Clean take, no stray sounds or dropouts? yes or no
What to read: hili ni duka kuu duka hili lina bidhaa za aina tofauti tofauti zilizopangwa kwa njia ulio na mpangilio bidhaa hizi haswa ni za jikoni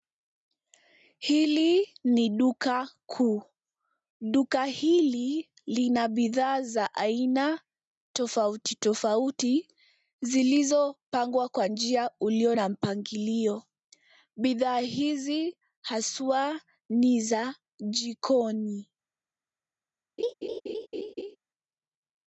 no